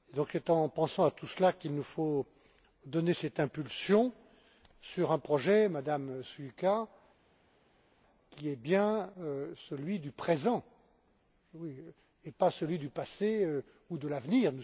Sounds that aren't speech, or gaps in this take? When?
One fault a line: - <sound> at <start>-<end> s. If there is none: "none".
none